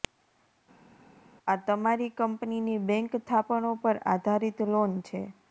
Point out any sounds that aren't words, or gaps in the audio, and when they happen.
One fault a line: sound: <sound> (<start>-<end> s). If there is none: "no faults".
no faults